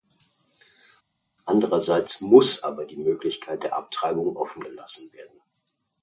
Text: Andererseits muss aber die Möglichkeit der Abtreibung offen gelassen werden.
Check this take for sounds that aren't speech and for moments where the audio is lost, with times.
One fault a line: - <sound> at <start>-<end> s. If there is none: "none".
none